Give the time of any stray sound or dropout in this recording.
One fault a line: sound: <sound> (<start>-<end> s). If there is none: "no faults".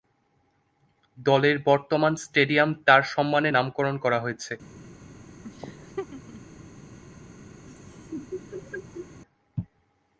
sound: laugh (5.4-6.4 s)
sound: laugh (7.7-9.2 s)